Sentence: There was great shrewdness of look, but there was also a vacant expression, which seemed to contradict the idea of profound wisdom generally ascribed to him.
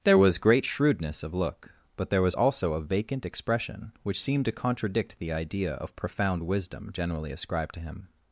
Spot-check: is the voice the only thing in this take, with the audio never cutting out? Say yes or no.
yes